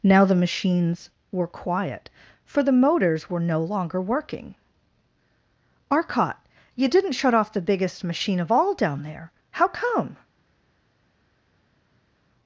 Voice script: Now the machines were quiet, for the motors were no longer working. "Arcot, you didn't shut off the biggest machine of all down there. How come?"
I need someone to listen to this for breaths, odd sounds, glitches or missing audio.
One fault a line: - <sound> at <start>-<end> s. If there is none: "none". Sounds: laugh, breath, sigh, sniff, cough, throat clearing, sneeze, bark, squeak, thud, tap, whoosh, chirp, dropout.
none